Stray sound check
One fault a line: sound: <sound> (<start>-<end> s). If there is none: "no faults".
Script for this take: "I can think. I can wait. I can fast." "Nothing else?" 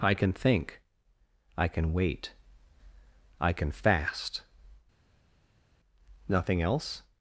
no faults